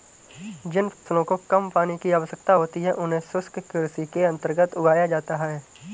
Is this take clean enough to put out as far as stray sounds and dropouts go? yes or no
no